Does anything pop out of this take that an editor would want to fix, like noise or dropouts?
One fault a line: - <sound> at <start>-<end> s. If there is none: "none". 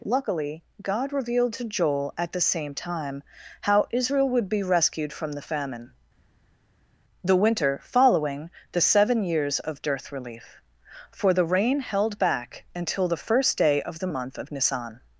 none